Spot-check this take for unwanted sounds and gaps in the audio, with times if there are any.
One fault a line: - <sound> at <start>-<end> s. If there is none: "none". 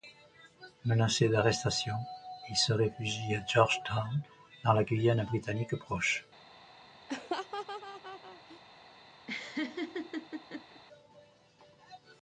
- laugh at 7.1-8.6 s
- laugh at 9.3-10.8 s